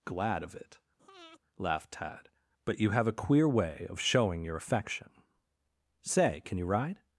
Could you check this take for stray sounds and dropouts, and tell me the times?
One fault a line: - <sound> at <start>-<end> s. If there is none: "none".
- breath at 1.0-1.4 s